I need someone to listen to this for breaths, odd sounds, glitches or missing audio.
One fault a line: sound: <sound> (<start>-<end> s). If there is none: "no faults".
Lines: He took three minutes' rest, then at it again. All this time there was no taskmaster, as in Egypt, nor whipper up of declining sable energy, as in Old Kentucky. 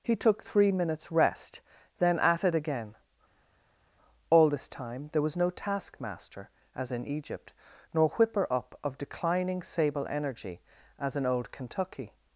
no faults